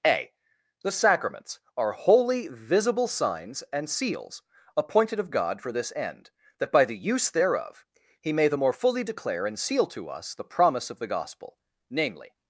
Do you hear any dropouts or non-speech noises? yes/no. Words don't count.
no